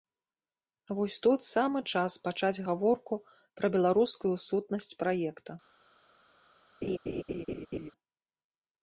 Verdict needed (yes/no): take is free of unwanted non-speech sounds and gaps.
no